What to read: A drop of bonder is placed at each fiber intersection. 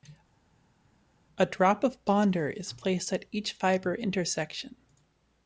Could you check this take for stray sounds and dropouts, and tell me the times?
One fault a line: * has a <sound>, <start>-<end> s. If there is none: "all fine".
all fine